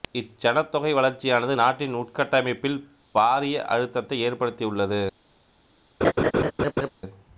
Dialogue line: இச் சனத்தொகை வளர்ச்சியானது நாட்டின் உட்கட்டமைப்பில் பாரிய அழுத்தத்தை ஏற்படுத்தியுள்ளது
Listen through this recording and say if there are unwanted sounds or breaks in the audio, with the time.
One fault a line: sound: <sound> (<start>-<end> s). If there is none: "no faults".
sound: laugh (6.0-6.9 s)